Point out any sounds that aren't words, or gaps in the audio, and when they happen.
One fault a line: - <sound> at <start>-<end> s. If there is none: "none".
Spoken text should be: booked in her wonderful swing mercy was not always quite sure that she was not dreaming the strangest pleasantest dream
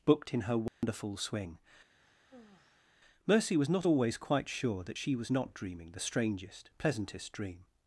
- dropout at 0.7-0.8 s
- sigh at 2.0-3.0 s